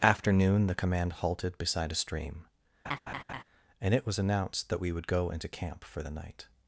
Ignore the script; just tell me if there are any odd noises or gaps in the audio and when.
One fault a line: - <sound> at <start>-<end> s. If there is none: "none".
- laugh at 2.8-3.4 s